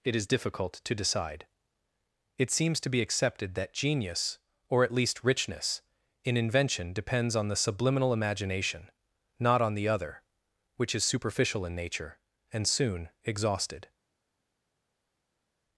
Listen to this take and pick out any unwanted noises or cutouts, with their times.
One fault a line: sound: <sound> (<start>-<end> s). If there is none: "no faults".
no faults